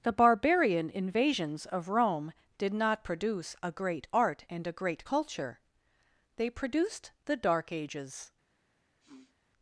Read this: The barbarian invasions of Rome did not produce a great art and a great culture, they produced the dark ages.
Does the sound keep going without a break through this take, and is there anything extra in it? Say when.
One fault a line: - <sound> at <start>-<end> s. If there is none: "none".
- sniff at 9.0-9.4 s